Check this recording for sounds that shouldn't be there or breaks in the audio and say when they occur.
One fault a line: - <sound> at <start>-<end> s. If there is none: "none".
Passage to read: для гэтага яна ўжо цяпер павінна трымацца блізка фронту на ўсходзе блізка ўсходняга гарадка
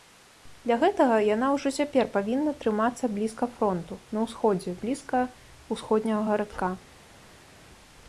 none